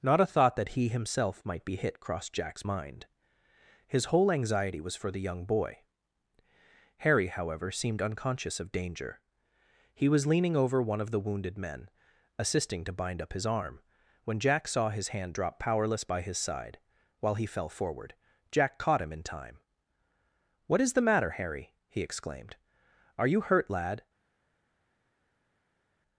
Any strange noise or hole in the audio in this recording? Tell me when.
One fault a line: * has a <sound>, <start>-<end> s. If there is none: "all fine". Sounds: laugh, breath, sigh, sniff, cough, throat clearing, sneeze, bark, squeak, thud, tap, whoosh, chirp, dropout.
all fine